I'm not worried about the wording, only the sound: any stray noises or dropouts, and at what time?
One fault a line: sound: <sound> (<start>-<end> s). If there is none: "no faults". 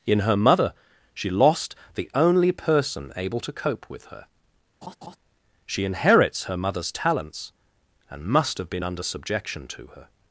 sound: laugh (4.8-5.2 s)